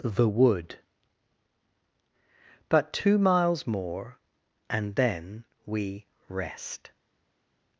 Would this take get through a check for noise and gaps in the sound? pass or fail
pass